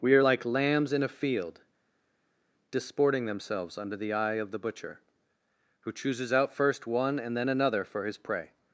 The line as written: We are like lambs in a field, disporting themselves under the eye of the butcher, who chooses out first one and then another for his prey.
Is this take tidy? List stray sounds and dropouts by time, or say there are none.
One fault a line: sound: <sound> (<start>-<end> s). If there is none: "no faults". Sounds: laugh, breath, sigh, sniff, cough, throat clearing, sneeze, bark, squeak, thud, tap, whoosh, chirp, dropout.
no faults